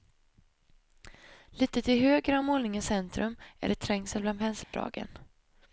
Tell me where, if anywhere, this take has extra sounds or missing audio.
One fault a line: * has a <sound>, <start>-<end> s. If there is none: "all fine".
* has a dropout, 4.6-4.7 s